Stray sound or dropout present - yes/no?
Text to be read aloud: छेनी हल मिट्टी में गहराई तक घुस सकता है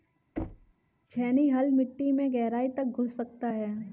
yes